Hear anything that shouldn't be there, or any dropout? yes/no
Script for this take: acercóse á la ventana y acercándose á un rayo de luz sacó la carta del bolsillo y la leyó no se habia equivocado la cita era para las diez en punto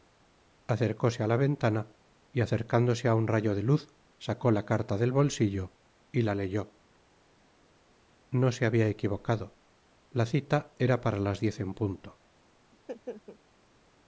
yes